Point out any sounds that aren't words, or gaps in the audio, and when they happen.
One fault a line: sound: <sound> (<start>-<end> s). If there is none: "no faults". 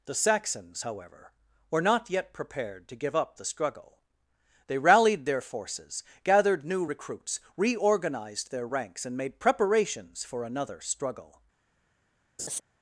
sound: laugh (12.4-12.6 s)